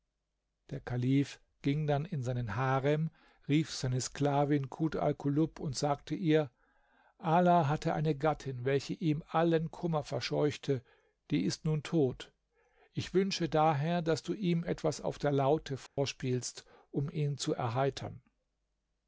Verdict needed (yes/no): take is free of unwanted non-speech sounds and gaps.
no